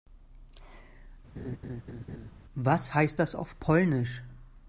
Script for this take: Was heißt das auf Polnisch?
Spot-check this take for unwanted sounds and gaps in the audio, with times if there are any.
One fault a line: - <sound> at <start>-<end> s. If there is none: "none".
- laugh at 1.4-2.3 s